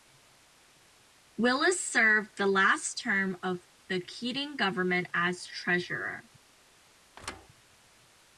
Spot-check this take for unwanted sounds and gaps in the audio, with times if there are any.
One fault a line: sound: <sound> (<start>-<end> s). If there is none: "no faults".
sound: thud (7.2-7.5 s)